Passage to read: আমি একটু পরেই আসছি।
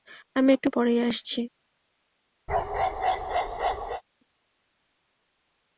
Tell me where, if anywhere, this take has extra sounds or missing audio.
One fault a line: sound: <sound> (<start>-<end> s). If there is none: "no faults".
sound: bark (2.5-4.0 s)